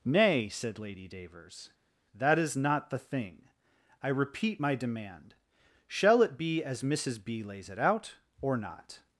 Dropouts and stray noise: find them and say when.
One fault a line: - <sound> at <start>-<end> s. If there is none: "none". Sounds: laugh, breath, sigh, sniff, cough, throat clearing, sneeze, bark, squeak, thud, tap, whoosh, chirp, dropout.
none